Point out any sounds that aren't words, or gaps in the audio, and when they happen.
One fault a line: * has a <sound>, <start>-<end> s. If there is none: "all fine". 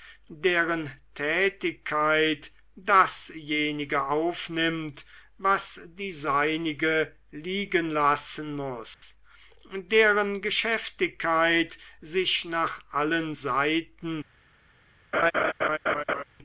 * has a dropout, 8.9-9.0 s
* has a laugh, 15.1-16.2 s